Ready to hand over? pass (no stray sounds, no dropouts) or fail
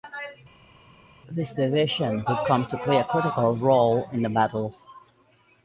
pass